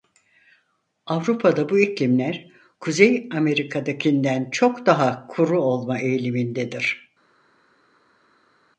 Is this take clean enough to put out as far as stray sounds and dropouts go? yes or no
yes